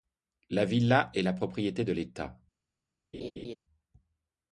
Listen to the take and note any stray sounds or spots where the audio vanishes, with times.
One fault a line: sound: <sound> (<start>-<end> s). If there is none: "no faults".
sound: laugh (3.1-3.6 s)